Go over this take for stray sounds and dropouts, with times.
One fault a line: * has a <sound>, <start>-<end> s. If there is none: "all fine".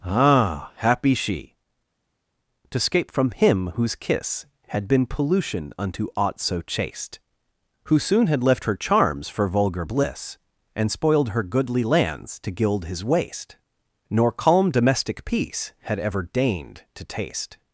all fine